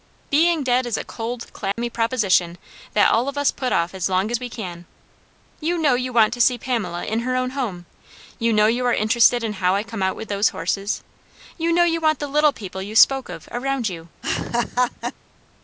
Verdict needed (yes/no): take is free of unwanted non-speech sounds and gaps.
no